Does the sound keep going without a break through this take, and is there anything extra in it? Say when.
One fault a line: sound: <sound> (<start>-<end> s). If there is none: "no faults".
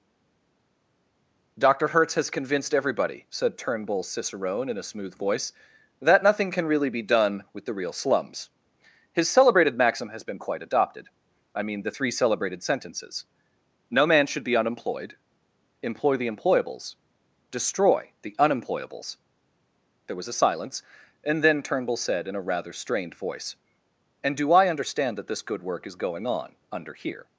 no faults